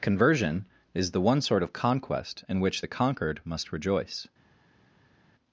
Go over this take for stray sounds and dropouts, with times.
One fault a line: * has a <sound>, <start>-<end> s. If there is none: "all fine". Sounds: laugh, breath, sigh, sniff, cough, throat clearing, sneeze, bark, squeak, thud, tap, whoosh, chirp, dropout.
all fine